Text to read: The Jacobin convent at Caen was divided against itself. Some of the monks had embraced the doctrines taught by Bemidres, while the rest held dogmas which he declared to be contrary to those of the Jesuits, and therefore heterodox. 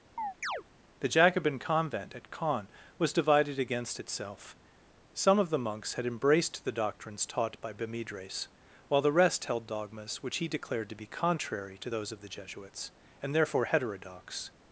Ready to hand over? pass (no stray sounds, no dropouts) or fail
fail